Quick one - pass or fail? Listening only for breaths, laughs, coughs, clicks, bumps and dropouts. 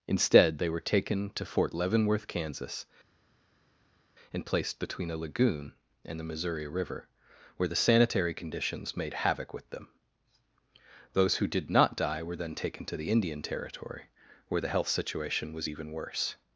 pass